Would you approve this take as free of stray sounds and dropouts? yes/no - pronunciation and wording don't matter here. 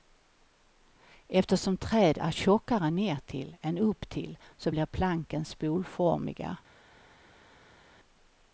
yes